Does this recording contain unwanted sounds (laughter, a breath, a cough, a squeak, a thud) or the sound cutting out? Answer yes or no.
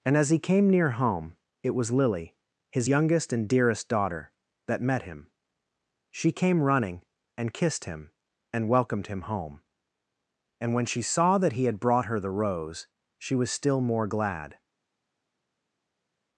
no